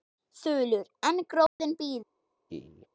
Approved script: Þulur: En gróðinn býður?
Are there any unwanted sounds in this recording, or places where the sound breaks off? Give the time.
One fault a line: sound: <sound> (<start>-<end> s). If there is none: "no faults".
sound: dropout (1.5-1.6 s)
sound: laugh (2.5-2.9 s)